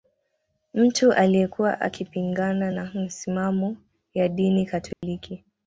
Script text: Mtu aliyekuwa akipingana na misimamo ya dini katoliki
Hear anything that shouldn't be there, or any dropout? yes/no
yes